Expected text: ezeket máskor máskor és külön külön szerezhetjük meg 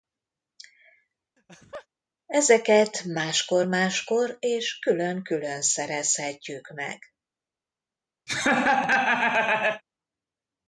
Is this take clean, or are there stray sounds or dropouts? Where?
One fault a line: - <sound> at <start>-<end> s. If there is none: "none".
- laugh at 1.4-1.9 s
- laugh at 8.3-9.8 s